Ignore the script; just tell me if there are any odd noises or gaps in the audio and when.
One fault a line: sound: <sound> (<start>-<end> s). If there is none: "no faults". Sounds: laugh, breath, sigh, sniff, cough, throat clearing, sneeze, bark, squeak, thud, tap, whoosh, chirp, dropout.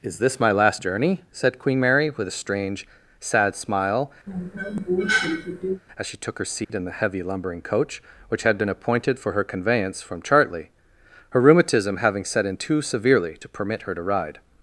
sound: cough (4.3-5.8 s)
sound: dropout (6.6-6.7 s)